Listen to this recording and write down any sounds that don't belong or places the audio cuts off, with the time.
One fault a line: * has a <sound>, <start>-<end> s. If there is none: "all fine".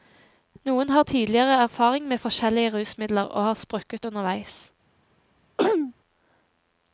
* has a throat clearing, 5.6-5.9 s